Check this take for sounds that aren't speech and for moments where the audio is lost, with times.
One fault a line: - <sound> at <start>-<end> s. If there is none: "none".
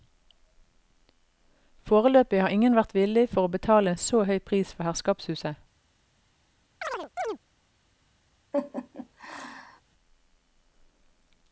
- chirp at 6.8-7.4 s
- laugh at 8.5-9.8 s